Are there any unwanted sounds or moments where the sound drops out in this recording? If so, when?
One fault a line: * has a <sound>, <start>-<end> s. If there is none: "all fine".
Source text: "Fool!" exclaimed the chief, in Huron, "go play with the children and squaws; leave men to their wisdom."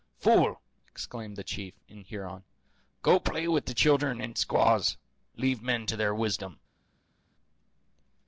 all fine